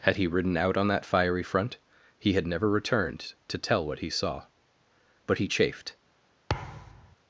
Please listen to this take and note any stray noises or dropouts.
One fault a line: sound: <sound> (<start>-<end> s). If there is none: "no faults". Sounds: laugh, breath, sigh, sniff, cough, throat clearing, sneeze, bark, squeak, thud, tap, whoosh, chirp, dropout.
sound: thud (6.5-7.2 s)